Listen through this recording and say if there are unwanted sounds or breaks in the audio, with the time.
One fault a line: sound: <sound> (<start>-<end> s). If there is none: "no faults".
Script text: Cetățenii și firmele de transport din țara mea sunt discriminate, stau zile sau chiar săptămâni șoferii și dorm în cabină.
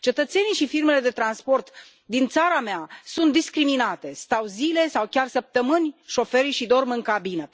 no faults